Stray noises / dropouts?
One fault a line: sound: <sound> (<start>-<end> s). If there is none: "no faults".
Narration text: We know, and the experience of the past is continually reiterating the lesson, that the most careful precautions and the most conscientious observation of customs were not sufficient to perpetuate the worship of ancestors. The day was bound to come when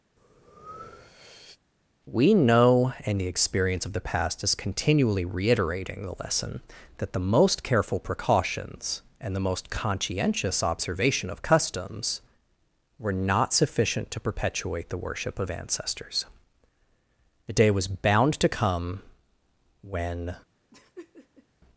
sound: breath (0.2-1.6 s)
sound: laugh (20.7-21.5 s)